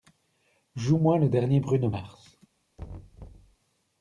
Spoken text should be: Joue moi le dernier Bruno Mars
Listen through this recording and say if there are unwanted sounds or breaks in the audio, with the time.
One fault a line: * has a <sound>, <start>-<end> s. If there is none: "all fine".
* has a thud, 2.8-3.6 s